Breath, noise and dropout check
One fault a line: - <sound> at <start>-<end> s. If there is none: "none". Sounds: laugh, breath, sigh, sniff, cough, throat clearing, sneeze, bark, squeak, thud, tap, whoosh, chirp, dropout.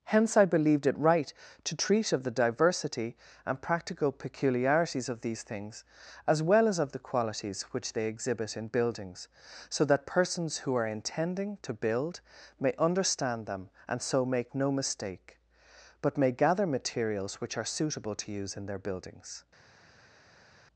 none